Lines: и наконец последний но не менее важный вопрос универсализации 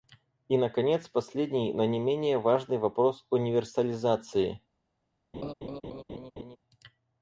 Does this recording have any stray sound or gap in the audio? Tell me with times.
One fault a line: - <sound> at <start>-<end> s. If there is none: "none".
- laugh at 5.3-6.6 s